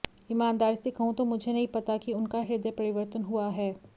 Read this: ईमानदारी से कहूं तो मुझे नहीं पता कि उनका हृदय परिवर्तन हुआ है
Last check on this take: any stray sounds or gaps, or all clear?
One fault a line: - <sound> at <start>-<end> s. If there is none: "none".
none